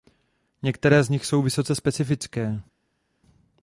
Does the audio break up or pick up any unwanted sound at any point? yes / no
no